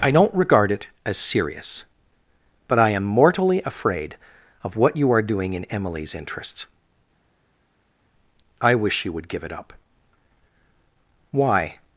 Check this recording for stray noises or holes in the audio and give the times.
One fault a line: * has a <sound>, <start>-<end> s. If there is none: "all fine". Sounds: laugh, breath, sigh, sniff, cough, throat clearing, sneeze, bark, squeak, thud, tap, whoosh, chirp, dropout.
all fine